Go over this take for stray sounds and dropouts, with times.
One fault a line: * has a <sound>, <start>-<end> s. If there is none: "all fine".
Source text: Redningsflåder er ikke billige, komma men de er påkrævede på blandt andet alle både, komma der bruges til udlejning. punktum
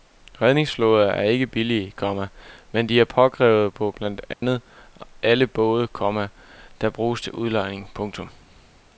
* has a dropout, 4.3-4.4 s